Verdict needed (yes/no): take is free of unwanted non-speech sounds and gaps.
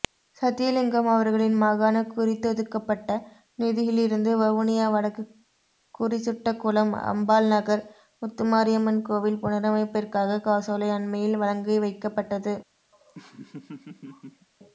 no